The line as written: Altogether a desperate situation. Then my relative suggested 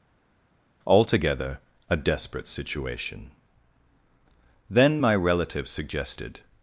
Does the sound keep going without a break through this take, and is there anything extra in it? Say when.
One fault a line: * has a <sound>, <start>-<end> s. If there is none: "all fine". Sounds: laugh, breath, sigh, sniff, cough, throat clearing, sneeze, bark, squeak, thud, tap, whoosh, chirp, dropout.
all fine